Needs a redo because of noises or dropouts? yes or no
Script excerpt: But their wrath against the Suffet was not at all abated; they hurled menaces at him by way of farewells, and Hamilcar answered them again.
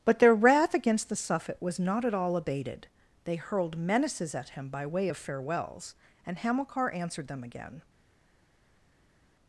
no